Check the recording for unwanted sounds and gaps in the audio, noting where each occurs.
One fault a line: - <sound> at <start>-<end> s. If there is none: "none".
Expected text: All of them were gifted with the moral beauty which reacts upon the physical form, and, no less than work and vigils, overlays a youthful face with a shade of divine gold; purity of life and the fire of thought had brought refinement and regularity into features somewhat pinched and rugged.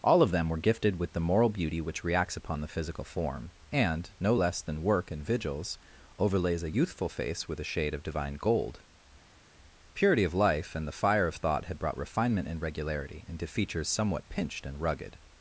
none